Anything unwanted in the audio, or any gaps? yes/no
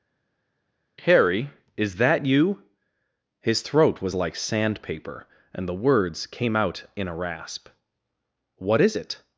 no